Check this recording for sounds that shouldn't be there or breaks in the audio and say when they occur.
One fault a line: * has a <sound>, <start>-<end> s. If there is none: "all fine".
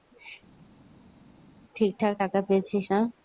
all fine